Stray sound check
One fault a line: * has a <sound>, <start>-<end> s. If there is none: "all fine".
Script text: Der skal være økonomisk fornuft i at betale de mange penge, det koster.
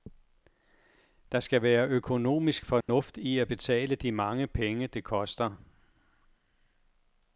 * has a dropout, 2.8-2.9 s